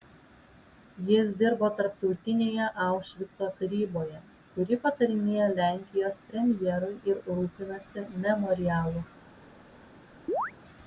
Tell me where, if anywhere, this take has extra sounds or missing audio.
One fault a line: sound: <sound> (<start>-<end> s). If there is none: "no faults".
sound: chirp (10.3-10.5 s)